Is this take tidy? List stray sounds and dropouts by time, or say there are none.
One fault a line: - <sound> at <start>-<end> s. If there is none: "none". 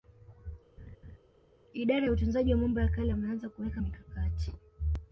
- laugh at 0.8-1.2 s